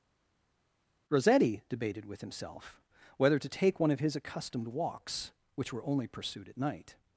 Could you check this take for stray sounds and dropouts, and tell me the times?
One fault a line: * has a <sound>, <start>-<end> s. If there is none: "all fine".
all fine